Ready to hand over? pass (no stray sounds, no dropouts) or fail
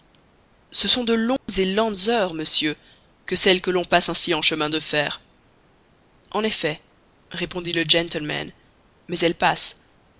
fail